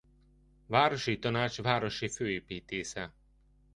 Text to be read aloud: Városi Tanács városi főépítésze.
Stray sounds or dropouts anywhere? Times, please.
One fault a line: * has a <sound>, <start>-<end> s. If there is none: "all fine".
all fine